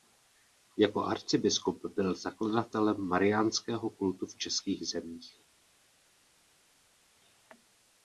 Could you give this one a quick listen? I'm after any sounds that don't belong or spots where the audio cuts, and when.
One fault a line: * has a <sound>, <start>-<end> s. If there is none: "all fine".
all fine